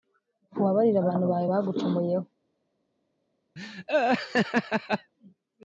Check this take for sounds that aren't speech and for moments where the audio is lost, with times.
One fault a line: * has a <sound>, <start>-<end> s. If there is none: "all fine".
* has a laugh, 3.6-5.1 s